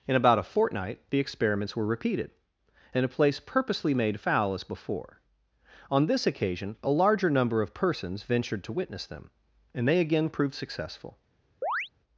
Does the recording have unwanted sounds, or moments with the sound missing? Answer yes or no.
yes